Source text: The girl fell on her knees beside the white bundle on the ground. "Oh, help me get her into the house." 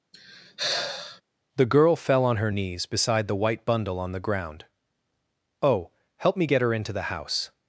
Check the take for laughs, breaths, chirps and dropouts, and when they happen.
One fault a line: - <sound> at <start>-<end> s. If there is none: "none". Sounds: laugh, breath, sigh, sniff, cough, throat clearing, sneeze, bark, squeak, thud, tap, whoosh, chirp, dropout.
- sigh at 0.1-1.2 s